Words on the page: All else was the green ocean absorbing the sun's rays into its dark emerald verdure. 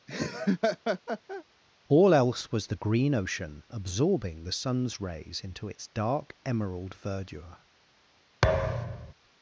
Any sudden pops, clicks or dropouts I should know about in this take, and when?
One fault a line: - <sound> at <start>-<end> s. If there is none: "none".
- laugh at 0.1-1.4 s
- thud at 8.4-9.1 s